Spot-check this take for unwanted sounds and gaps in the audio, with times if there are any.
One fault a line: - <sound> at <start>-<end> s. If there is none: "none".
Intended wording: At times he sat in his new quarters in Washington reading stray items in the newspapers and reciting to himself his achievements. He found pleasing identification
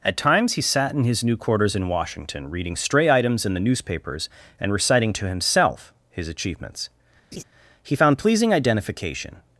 - laugh at 7.3-7.4 s